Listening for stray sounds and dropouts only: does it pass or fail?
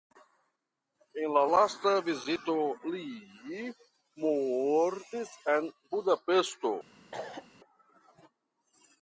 fail